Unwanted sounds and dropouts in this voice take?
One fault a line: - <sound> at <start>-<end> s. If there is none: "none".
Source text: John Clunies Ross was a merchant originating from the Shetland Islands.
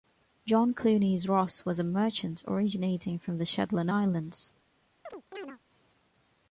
- chirp at 5.1-5.6 s